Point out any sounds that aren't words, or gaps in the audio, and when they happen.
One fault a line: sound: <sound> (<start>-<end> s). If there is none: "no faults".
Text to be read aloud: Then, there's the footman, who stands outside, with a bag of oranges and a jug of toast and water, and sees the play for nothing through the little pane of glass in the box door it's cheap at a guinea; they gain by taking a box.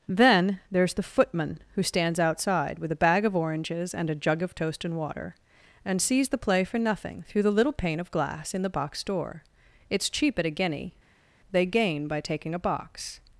no faults